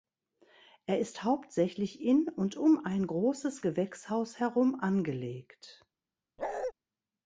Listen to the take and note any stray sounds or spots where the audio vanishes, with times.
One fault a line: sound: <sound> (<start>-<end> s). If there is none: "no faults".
sound: bark (6.4-6.7 s)